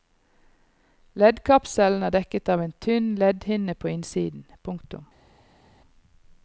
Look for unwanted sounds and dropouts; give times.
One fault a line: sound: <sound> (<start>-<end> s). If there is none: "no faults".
no faults